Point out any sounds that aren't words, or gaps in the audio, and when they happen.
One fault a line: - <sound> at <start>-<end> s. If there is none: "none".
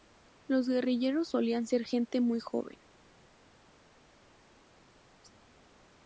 none